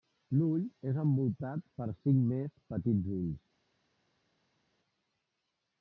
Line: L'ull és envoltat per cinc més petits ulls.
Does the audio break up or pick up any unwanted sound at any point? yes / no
no